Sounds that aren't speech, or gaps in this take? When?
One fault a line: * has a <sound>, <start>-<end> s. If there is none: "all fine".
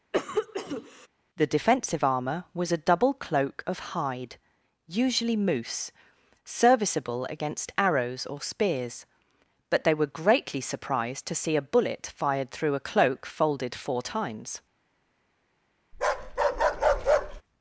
* has a cough, 0.1-1.1 s
* has a bark, 15.9-17.4 s